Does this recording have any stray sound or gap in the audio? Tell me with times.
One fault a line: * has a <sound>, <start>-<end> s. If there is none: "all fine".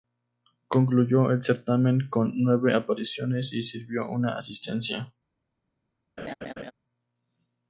* has a laugh, 6.2-6.7 s